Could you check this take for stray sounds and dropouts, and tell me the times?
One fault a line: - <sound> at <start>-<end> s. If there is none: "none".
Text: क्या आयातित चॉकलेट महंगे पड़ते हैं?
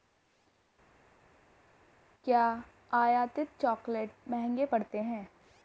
none